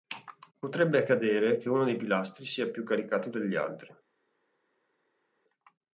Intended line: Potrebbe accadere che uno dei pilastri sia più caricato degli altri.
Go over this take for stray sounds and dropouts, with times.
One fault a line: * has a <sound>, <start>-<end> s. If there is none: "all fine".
all fine